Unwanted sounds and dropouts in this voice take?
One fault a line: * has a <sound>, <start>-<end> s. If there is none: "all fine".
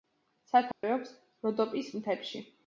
* has a dropout, 0.7-0.8 s